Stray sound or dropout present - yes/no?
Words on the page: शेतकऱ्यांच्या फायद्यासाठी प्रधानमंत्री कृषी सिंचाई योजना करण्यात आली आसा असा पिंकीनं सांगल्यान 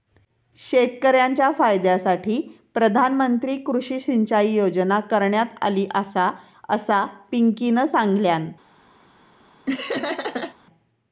yes